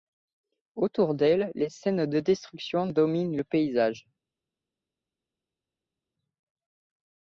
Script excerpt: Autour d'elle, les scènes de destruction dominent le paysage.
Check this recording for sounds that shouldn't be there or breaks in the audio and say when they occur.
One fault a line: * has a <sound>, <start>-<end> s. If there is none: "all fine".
all fine